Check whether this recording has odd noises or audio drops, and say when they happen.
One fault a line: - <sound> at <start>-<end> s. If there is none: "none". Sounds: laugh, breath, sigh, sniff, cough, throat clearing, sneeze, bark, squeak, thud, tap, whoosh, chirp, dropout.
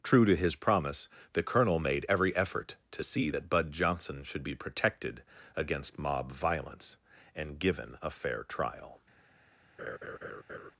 - laugh at 9.8-10.7 s